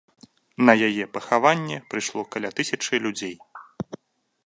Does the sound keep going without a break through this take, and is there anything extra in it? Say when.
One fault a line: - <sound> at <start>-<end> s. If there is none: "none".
none